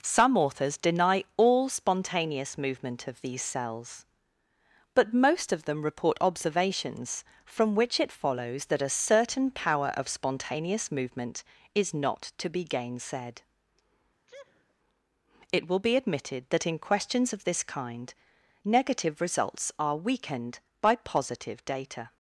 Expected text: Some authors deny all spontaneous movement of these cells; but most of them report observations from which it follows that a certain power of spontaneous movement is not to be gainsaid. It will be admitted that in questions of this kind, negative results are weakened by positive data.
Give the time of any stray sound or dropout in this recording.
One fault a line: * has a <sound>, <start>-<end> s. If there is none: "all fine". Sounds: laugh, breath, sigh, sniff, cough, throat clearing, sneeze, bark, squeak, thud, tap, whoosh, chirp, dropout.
* has a sneeze, 14.3-14.7 s